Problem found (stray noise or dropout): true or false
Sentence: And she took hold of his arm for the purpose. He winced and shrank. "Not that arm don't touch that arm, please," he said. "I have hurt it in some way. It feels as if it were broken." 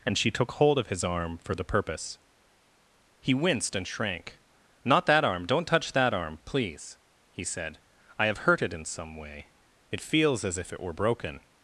false